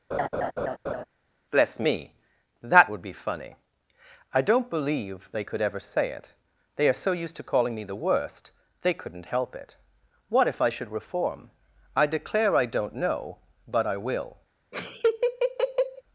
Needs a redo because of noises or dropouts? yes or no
yes